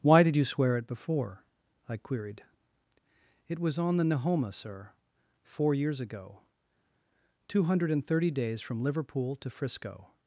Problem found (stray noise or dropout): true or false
false